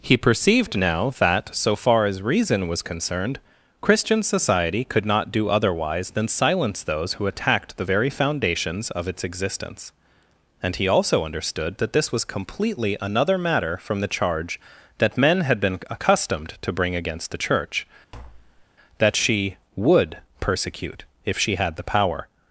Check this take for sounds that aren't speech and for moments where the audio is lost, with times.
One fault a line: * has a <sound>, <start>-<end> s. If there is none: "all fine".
* has a tap, 18.1-18.7 s